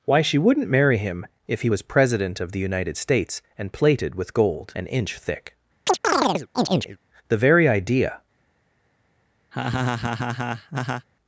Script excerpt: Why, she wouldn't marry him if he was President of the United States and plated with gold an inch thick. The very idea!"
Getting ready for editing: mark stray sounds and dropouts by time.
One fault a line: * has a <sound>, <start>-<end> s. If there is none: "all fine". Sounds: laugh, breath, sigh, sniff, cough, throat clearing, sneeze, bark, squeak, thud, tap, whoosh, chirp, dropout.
* has a chirp, 5.9-7.0 s
* has a laugh, 9.5-11.1 s